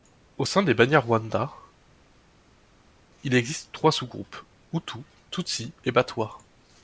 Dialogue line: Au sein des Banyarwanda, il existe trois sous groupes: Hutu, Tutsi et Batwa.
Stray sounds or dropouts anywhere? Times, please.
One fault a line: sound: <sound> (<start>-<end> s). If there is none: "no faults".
no faults